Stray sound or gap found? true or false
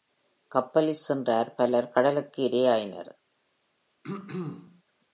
true